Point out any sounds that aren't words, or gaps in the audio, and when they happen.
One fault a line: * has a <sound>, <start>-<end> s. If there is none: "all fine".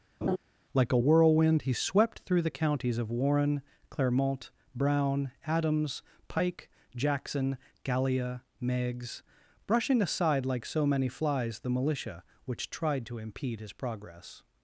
* has a laugh, 0.2-0.4 s